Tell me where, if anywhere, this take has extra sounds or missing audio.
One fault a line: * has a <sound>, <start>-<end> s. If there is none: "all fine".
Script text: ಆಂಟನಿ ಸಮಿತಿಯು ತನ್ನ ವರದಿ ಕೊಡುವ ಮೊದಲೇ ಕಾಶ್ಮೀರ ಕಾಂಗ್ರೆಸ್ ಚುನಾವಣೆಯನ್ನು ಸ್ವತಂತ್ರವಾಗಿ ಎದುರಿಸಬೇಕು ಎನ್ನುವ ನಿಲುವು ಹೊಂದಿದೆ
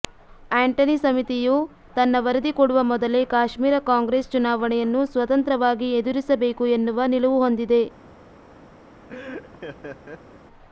* has a laugh, 9.1-10.4 s